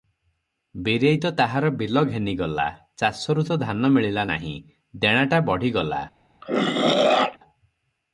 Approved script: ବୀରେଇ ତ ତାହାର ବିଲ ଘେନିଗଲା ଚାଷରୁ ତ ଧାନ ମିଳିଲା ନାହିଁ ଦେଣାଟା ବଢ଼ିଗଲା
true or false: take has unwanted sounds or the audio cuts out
true